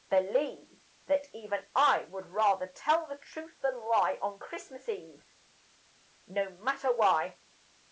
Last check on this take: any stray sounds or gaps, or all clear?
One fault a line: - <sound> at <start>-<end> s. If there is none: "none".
none